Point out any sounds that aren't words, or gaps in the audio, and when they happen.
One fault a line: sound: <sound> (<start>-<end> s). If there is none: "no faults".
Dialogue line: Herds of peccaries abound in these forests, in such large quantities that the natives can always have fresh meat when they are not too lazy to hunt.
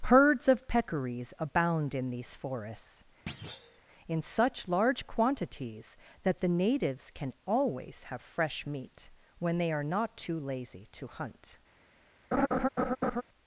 sound: thud (3.3-3.8 s)
sound: laugh (12.3-13.2 s)